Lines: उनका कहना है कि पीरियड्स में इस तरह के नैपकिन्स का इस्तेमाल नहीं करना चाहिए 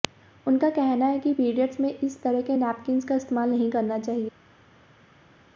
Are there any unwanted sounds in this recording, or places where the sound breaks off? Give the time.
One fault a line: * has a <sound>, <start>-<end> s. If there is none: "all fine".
all fine